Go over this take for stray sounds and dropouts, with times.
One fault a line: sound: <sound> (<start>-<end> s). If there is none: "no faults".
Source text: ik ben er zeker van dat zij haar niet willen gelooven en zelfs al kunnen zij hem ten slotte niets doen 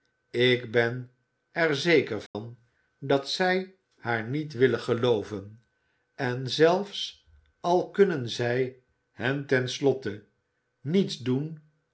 sound: dropout (2.3-2.3 s)